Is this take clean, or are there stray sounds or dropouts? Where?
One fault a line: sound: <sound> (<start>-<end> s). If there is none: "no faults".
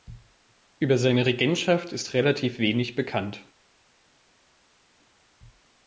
no faults